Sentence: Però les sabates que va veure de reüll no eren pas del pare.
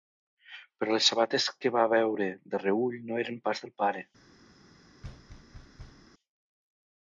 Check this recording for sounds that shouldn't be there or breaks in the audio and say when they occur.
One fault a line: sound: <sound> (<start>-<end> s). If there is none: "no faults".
sound: thud (5.0-6.1 s)